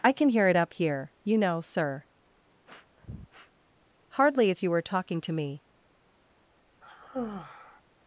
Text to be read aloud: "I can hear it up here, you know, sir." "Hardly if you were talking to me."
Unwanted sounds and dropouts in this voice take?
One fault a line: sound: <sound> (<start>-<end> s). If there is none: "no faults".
sound: sniff (2.7-3.5 s)
sound: sigh (6.8-7.8 s)